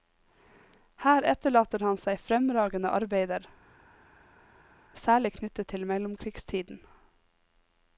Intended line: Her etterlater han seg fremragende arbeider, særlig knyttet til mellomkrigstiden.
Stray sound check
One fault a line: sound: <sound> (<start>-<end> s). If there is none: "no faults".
no faults